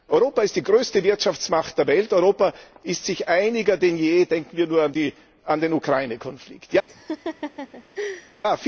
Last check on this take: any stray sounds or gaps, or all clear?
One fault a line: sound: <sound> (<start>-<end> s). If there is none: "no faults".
sound: laugh (6.9-8.4 s)